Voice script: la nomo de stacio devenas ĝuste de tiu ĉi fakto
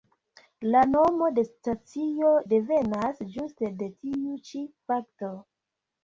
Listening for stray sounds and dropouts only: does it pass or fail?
pass